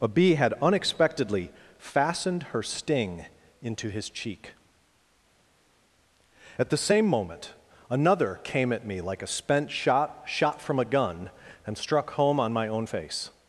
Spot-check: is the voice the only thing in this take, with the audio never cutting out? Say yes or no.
yes